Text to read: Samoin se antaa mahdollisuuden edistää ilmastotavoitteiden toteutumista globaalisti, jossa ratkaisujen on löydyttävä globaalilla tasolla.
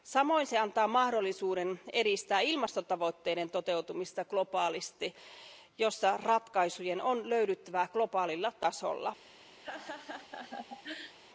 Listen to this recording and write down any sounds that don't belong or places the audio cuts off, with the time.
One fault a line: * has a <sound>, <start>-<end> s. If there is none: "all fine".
* has a laugh, 9.6-11.2 s